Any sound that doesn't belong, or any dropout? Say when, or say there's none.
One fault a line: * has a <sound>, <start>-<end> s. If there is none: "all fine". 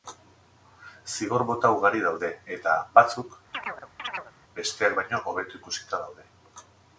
* has a chirp, 3.5-4.3 s